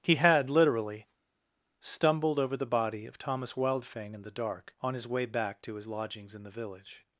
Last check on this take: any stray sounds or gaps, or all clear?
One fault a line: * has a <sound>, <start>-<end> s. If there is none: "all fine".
all fine